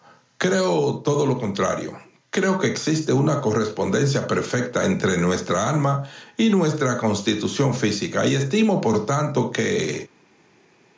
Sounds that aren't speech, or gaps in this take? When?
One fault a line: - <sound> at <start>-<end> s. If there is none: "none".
none